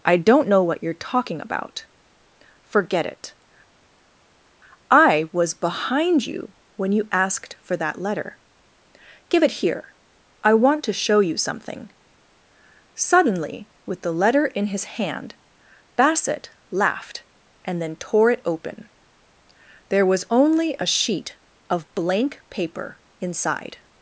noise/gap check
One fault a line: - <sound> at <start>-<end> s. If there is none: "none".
none